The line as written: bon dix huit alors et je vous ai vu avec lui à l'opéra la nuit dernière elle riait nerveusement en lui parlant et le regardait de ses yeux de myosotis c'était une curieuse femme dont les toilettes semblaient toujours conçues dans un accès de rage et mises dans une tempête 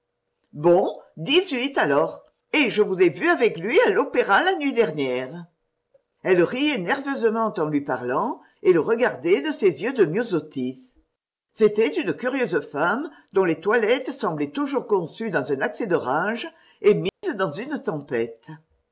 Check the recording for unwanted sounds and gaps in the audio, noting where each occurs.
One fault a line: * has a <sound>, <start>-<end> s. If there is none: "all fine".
* has a dropout, 17.1-17.2 s